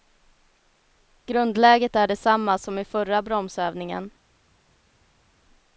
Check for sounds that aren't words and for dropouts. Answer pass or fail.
pass